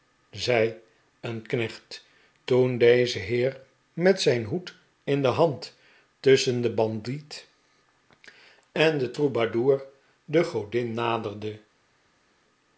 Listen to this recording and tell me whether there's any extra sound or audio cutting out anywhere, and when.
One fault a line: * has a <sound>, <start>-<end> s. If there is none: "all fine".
all fine